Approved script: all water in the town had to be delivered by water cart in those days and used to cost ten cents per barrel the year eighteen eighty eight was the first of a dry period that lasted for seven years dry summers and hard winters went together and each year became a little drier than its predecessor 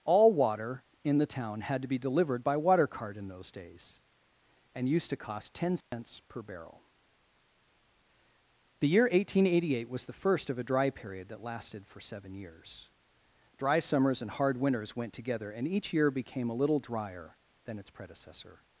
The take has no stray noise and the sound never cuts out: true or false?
false